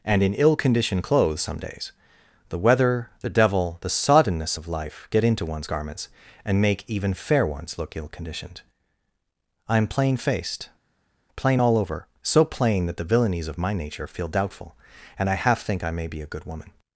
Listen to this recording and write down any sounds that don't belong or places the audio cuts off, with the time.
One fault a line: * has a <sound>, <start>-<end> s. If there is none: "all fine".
all fine